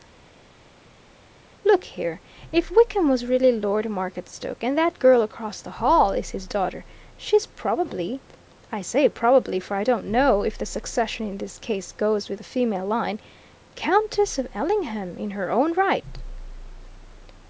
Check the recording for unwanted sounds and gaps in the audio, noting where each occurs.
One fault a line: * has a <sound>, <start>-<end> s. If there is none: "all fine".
all fine